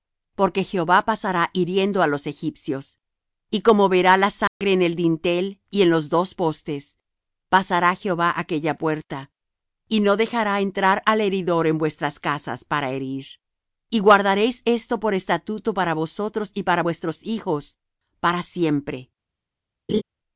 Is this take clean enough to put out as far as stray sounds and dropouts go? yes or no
no